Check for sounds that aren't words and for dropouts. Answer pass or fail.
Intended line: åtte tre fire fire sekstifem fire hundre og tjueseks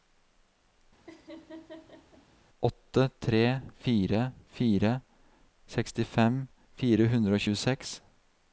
fail